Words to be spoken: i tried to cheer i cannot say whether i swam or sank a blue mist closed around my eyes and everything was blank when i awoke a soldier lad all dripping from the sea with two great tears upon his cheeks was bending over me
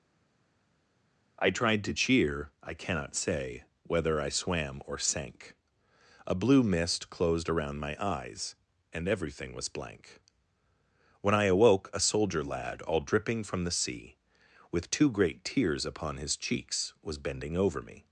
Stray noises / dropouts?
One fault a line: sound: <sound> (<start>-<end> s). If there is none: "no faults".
no faults